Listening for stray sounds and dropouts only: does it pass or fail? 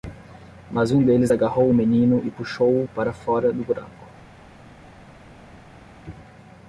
pass